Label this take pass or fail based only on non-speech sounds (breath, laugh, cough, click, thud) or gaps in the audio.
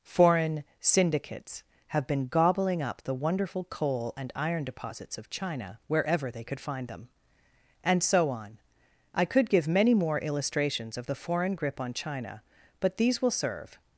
pass